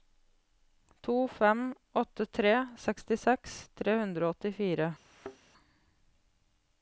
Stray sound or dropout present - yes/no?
yes